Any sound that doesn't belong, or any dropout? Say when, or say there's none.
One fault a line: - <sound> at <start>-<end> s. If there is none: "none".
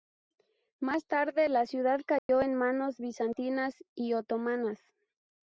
- dropout at 2.2-2.3 s